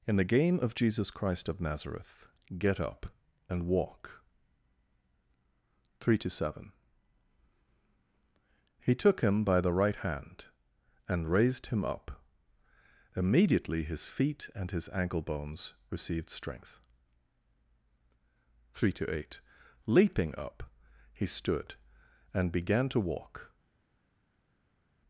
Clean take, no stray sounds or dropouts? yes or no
yes